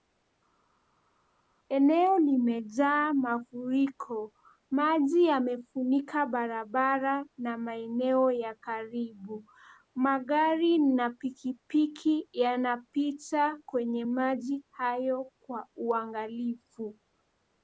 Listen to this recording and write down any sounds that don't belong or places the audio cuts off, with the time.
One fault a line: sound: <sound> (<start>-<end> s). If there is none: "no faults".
no faults